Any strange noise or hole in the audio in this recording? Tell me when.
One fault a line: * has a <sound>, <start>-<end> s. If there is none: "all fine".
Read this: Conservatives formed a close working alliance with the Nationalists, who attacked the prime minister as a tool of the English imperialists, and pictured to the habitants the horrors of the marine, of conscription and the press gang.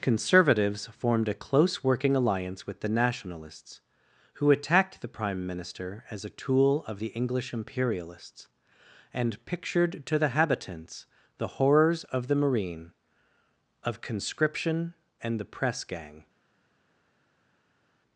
all fine